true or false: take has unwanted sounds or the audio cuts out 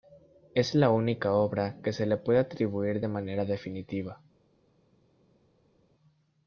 false